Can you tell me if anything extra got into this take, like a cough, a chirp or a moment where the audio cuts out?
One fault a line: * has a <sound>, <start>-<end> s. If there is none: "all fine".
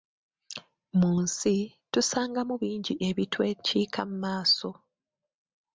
all fine